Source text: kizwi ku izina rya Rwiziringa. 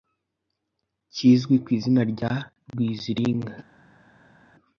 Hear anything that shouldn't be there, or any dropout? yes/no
no